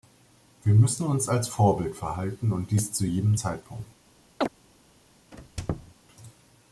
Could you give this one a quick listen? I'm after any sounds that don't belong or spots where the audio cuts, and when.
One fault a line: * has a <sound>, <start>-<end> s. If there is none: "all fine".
* has a chirp, 4.4-4.5 s
* has a squeak, 5.3-5.9 s